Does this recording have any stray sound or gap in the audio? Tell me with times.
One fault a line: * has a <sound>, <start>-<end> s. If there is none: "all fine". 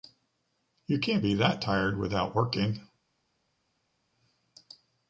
all fine